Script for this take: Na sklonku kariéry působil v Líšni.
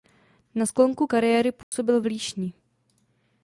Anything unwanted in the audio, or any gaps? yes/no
yes